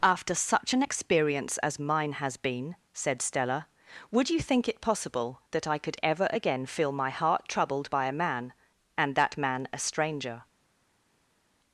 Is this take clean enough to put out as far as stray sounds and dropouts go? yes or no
yes